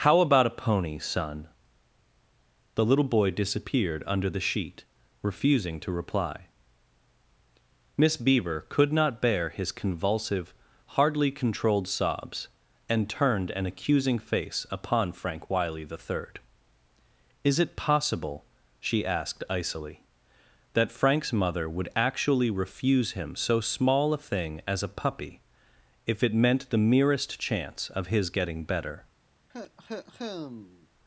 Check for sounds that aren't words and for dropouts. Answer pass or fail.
fail